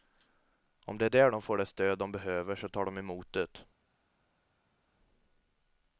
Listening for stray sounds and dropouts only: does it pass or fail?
pass